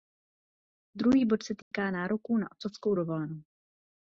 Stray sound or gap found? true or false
true